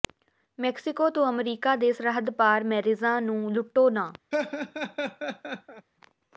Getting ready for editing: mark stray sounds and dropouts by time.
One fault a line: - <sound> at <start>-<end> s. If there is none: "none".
- laugh at 4.3-5.9 s